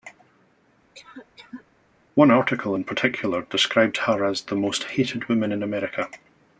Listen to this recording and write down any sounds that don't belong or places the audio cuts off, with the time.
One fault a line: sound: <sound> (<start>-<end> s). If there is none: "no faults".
sound: cough (0.9-1.7 s)